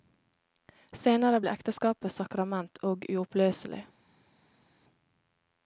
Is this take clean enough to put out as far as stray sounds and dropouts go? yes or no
yes